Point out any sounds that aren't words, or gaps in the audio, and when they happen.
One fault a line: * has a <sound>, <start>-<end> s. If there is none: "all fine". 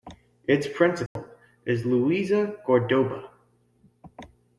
* has a dropout, 1.1-1.2 s